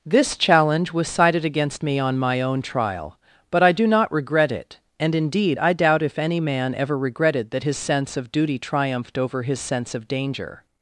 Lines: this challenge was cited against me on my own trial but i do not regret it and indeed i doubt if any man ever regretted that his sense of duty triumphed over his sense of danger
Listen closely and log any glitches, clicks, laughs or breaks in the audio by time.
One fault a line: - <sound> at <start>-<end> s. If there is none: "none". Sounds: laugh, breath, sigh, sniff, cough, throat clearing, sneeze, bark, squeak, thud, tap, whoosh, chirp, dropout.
none